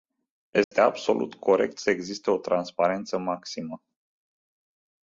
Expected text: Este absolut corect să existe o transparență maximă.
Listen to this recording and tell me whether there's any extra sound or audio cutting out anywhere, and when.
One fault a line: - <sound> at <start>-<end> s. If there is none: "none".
- dropout at 0.6-0.7 s